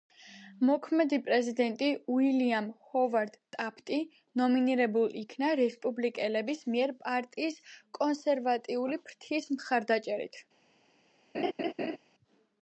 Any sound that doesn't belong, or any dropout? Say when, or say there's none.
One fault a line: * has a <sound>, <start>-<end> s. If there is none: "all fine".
* has a laugh, 11.3-12.0 s